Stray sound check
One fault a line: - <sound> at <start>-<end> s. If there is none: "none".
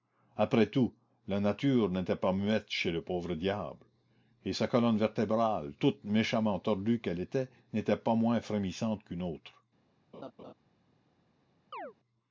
- laugh at 10.1-10.5 s
- chirp at 11.7-11.9 s